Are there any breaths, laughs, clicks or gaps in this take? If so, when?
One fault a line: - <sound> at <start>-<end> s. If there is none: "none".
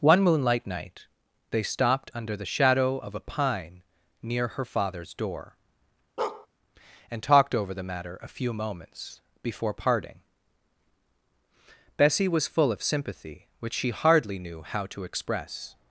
- bark at 6.2-6.5 s